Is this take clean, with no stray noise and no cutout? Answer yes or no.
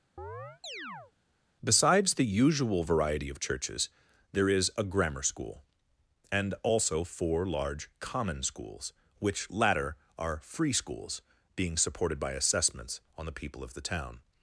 no